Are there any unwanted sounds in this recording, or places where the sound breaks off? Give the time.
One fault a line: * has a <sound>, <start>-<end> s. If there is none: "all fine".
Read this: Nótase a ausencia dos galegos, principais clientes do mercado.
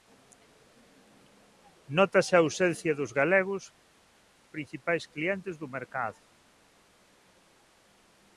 all fine